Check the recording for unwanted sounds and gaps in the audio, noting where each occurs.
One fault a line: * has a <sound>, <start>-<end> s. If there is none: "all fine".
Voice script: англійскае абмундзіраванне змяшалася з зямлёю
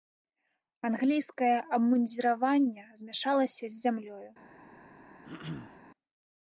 * has a throat clearing, 5.2-5.8 s